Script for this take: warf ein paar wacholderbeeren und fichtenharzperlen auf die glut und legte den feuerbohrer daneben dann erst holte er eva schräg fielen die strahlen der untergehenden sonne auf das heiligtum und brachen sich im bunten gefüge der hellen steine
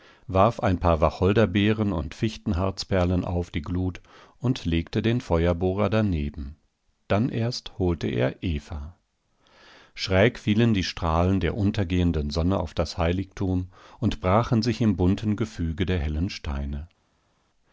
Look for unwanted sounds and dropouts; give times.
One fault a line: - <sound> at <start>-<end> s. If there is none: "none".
none